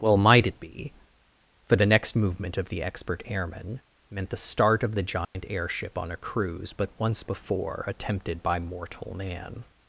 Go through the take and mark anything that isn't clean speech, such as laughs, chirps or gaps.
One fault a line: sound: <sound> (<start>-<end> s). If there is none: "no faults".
sound: dropout (5.2-5.3 s)